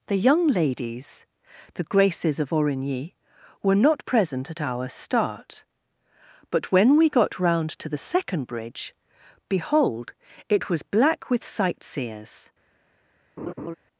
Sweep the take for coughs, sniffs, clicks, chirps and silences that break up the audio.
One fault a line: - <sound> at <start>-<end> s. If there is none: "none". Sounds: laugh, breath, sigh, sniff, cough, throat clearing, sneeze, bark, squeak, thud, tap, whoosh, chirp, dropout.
- laugh at 13.4-13.7 s